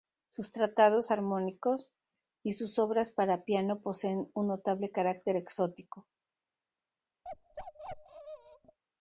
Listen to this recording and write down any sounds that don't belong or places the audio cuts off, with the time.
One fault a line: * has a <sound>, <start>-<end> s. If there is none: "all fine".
* has a bark, 7.2-8.8 s